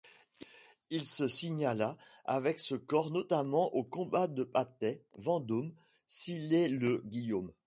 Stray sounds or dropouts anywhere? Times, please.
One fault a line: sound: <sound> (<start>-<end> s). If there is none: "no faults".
no faults